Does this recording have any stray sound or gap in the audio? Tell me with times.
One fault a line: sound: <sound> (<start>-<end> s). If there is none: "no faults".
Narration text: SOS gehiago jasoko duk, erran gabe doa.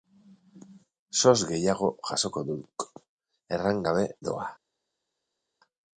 no faults